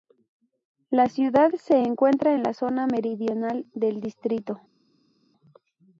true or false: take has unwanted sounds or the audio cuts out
false